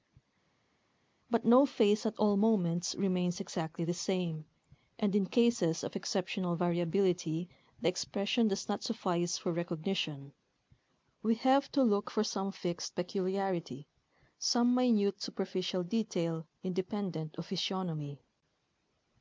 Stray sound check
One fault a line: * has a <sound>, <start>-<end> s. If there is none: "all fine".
all fine